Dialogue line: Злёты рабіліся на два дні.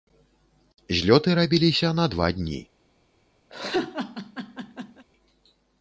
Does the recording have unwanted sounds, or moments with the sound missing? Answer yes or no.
yes